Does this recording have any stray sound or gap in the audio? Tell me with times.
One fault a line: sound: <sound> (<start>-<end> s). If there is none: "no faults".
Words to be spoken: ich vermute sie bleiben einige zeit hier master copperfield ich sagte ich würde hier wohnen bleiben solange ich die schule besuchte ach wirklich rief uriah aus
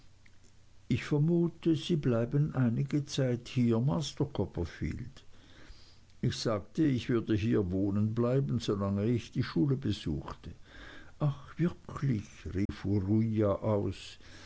sound: dropout (12.7-12.7 s)